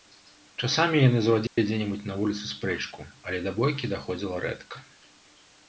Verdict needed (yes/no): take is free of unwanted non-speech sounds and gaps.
no